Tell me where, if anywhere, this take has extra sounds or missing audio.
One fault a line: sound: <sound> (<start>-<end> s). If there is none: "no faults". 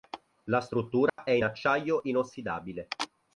sound: dropout (1.1-1.2 s)